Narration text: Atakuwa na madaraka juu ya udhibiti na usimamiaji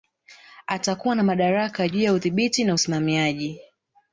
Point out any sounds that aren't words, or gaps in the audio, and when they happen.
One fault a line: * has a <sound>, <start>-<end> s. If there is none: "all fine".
all fine